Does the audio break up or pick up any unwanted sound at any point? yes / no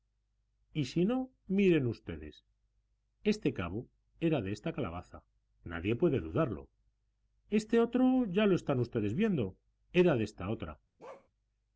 yes